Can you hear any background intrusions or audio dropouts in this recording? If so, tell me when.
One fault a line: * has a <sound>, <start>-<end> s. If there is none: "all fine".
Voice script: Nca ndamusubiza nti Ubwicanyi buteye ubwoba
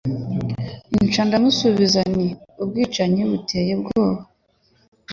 all fine